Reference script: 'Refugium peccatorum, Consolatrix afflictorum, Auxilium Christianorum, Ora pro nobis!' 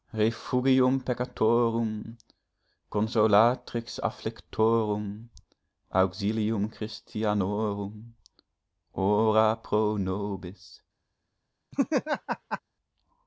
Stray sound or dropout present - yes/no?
yes